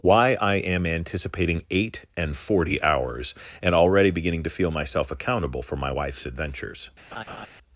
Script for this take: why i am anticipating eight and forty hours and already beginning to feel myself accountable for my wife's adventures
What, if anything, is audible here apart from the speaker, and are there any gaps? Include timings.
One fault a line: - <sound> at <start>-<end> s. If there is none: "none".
- laugh at 7.1-7.5 s